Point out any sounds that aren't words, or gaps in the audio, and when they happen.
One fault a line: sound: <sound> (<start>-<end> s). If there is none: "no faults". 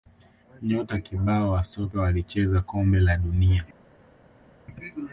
no faults